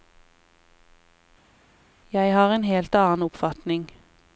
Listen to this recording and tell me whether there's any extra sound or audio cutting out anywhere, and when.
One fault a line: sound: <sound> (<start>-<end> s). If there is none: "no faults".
no faults